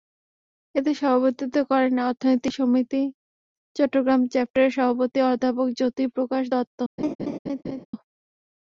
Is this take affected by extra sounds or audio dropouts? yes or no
yes